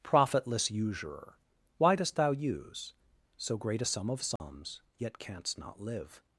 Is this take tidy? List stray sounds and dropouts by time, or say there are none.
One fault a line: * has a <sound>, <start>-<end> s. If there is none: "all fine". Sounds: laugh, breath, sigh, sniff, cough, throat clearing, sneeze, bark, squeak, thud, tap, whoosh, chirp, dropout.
* has a dropout, 4.4-4.4 s